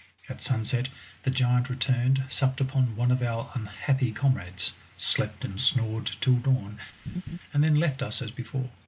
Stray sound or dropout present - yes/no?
yes